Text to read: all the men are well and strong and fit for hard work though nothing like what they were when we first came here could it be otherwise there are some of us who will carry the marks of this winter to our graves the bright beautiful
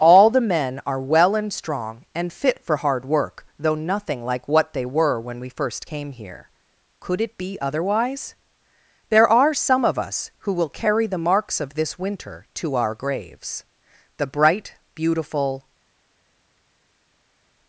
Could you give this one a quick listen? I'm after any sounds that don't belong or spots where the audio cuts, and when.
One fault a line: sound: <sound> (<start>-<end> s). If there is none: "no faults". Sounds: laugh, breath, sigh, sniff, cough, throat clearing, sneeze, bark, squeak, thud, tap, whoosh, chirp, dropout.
no faults